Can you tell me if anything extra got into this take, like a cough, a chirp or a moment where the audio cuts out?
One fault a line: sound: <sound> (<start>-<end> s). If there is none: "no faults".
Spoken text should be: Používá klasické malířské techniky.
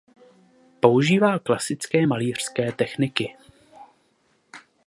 no faults